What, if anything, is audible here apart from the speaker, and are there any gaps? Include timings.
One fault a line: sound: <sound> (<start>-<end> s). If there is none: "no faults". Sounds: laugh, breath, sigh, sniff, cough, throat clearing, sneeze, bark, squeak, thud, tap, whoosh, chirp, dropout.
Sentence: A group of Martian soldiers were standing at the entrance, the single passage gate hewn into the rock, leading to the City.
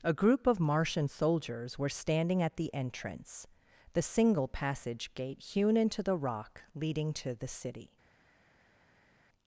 no faults